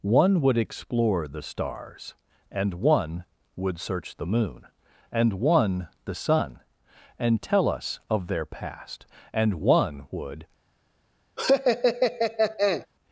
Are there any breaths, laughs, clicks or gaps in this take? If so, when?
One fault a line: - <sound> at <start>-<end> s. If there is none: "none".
- laugh at 11.4-12.9 s